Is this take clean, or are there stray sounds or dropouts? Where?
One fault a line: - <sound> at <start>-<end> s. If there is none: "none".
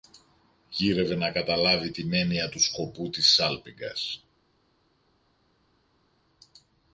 none